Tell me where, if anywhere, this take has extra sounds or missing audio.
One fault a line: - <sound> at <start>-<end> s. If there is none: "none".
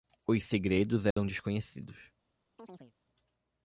- dropout at 1.1-1.2 s
- chirp at 2.6-2.9 s